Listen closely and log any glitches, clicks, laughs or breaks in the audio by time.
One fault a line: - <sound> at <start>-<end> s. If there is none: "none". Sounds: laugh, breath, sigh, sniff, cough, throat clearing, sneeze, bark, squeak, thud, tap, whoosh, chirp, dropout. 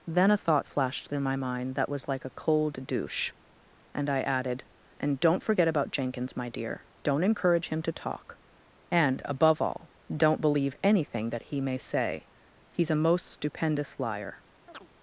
- chirp at 14.7-14.9 s